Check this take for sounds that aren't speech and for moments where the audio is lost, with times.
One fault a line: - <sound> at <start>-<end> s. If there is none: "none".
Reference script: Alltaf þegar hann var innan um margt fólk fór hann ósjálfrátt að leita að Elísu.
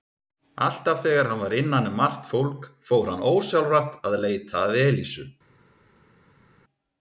none